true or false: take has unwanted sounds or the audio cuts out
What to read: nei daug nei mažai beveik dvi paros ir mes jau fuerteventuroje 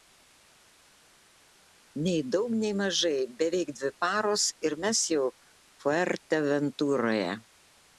false